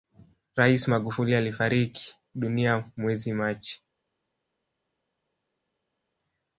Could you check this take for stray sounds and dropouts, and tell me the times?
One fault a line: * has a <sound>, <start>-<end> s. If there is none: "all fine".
all fine